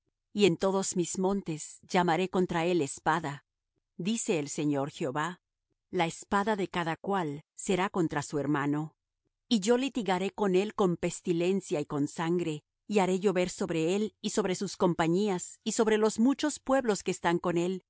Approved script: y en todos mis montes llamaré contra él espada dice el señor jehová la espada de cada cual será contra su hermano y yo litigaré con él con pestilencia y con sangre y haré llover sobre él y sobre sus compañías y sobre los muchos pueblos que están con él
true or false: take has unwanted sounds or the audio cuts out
false